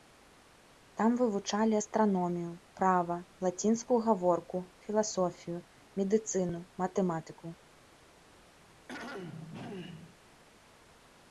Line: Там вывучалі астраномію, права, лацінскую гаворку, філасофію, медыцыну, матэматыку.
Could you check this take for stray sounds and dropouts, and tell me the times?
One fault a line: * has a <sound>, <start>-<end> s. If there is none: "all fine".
* has a throat clearing, 8.6-10.2 s